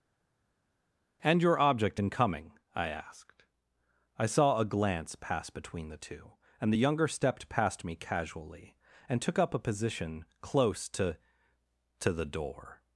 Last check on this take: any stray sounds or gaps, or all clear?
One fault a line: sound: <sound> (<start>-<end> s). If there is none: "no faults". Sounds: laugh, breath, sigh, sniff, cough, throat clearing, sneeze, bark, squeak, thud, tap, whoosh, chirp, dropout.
no faults